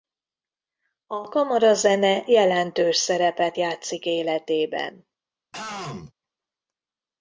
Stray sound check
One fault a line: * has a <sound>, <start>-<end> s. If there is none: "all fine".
* has a throat clearing, 5.5-6.1 s